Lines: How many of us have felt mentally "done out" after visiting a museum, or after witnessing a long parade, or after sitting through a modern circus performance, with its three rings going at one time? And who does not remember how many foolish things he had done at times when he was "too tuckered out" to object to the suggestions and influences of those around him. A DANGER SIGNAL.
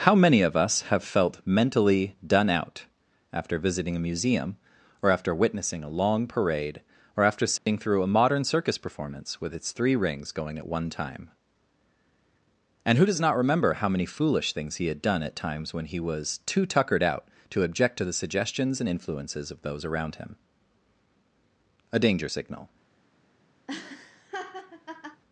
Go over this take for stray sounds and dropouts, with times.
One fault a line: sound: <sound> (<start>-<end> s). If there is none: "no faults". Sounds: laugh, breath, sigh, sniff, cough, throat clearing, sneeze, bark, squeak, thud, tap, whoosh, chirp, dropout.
sound: dropout (7.6-7.7 s)
sound: laugh (23.7-25.2 s)